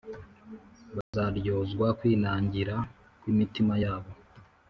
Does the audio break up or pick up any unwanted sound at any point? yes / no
yes